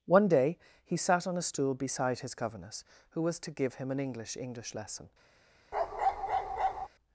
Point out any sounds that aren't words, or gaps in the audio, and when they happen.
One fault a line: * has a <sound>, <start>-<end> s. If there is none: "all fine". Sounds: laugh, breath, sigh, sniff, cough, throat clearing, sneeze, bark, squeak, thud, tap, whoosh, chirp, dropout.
* has a bark, 5.7-6.9 s